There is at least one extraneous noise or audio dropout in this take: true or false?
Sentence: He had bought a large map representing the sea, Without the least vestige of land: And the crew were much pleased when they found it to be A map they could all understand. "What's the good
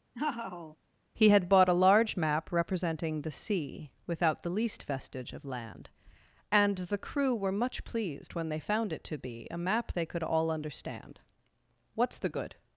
true